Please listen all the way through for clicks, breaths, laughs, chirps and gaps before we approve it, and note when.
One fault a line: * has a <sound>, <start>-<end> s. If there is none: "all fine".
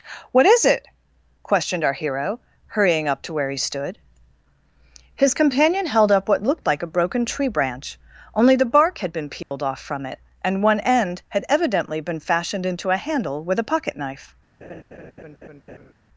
* has a dropout, 9.4-9.5 s
* has a laugh, 14.6-15.9 s